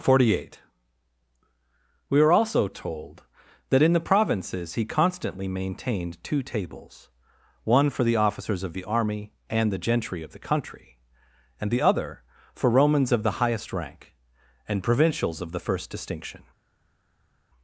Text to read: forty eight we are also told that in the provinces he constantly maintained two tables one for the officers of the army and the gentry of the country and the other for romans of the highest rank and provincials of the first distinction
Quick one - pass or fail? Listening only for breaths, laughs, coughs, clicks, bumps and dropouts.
pass